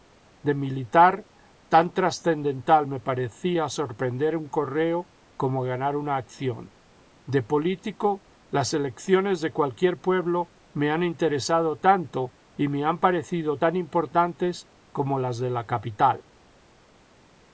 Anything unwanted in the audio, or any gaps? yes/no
no